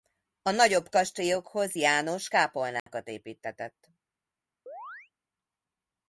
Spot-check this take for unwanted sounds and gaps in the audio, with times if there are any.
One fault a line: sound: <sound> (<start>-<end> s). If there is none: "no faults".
sound: dropout (2.8-2.9 s)
sound: chirp (4.7-5.1 s)